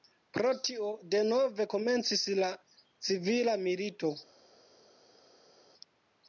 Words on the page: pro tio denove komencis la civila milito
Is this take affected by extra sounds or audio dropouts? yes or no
no